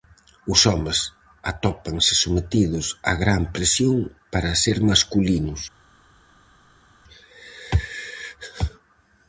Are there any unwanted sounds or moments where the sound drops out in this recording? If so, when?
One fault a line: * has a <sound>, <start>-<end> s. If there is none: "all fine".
all fine